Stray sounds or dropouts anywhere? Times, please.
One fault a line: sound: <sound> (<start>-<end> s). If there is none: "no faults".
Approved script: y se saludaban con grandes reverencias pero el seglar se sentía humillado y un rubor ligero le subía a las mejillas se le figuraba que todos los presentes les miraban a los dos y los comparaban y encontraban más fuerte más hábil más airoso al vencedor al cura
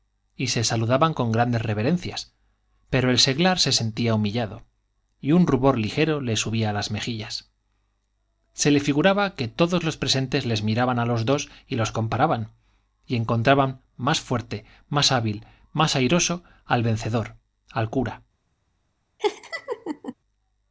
sound: laugh (19.2-20.1 s)